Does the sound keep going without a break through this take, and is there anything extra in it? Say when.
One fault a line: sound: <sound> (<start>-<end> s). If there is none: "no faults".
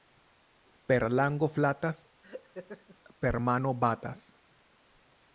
sound: laugh (2.2-3.0 s)